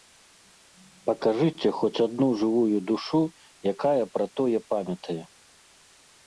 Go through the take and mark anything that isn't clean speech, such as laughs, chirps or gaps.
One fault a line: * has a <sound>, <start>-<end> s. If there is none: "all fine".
all fine